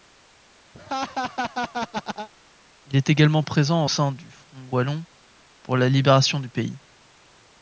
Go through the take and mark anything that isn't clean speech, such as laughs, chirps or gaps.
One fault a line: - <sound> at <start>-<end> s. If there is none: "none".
- laugh at 0.7-2.3 s